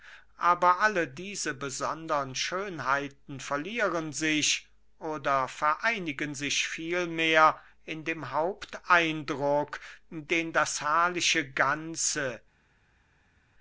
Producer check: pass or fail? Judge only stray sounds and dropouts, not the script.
pass